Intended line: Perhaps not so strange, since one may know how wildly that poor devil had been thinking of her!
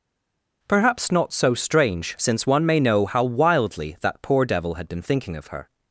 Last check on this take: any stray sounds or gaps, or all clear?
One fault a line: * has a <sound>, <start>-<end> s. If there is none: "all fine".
all fine